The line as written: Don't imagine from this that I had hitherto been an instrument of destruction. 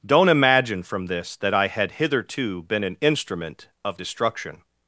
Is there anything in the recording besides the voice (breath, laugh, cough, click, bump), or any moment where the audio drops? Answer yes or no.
no